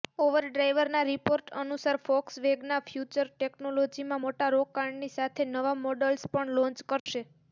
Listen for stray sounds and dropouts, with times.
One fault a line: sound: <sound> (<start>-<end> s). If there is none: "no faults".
sound: dropout (7.0-7.1 s)